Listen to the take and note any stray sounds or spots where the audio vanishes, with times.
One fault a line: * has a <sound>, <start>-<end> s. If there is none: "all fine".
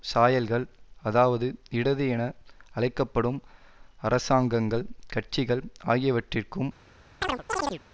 * has a chirp, 7.2-7.8 s